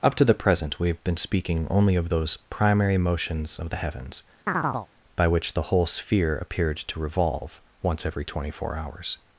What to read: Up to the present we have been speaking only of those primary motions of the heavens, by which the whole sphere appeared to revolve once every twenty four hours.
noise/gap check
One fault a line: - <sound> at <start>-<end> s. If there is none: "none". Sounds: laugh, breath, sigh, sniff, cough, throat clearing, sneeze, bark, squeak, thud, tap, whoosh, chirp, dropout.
- chirp at 4.5-4.9 s